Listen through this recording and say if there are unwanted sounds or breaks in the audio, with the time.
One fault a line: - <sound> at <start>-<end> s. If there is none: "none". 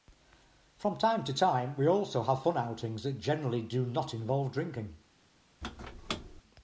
- squeak at 5.6-6.4 s